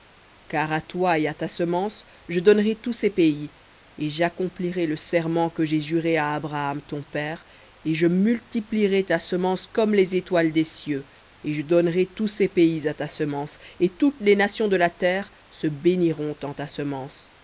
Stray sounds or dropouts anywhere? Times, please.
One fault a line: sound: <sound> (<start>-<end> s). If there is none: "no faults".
no faults